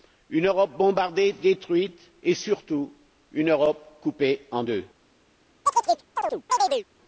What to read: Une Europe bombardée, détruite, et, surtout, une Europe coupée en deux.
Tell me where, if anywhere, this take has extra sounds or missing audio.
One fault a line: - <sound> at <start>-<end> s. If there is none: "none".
- chirp at 5.7-6.9 s